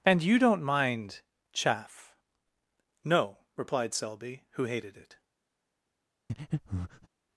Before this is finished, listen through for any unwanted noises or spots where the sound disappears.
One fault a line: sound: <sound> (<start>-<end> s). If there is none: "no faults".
sound: breath (6.3-7.1 s)